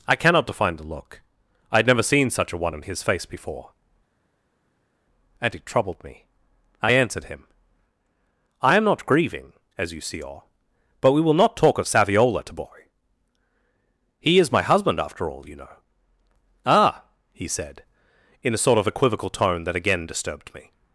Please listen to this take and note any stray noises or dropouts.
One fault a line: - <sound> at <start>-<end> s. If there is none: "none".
none